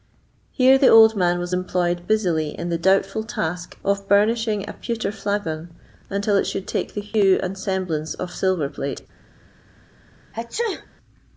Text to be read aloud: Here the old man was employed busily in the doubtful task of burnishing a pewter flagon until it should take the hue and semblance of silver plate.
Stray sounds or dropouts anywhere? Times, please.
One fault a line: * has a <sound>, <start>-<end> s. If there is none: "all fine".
* has a sneeze, 10.3-10.9 s